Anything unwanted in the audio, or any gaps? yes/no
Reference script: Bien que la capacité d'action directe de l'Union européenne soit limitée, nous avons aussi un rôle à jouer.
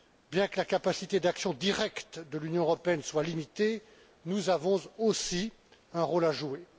no